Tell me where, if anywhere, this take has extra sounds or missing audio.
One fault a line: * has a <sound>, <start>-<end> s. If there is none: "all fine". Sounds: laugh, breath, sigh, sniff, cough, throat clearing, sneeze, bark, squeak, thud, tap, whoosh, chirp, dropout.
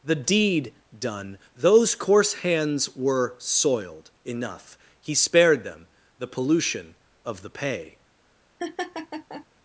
* has a laugh, 8.6-9.5 s